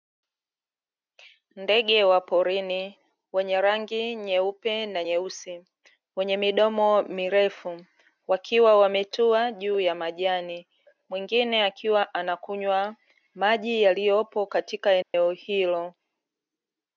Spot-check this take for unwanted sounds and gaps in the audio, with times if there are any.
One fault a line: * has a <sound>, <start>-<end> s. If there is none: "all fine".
* has a dropout, 15.0-15.1 s